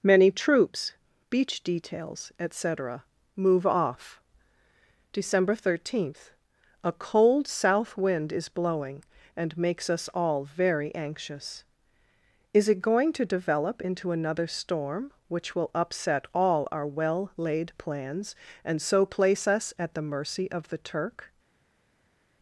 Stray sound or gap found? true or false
false